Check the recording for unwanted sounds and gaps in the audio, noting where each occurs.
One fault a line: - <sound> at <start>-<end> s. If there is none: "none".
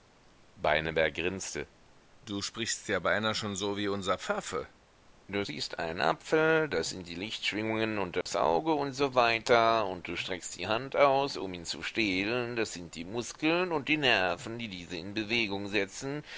- dropout at 8.2-8.3 s